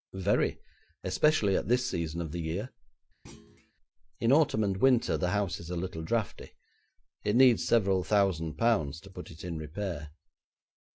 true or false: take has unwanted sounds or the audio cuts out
true